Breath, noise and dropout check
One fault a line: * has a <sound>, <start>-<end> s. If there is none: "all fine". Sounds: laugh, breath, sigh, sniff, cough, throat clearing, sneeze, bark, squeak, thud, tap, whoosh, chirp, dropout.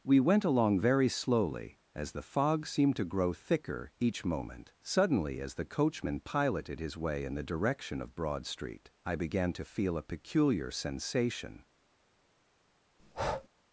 * has a breath, 13.0-13.5 s